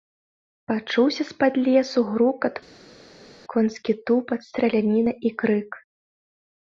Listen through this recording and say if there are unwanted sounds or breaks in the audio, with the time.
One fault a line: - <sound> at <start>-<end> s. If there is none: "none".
none